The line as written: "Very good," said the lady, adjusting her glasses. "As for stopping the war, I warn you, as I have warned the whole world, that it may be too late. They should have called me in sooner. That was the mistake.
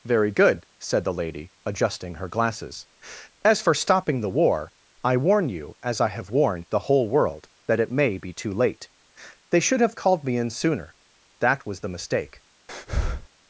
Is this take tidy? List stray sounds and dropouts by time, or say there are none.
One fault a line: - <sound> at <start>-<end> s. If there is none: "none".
- breath at 12.7-13.3 s